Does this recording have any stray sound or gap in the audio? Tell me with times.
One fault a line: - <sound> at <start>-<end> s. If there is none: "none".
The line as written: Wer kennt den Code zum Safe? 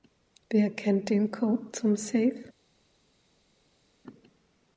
none